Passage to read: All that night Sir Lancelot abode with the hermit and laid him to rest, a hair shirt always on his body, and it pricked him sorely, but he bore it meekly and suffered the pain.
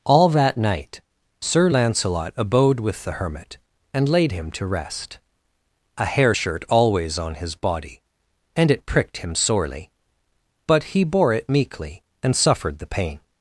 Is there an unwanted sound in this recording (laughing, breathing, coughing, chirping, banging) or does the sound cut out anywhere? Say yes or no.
no